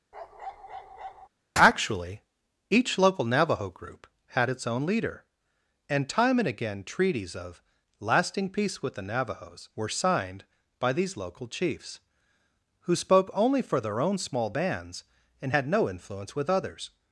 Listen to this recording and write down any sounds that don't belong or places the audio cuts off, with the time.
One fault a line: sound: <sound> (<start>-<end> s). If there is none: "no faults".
sound: bark (0.1-1.3 s)